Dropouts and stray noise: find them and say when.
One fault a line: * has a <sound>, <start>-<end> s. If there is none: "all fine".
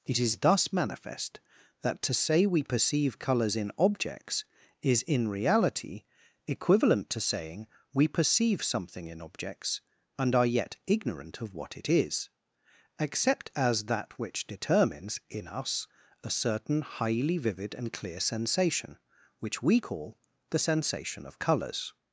all fine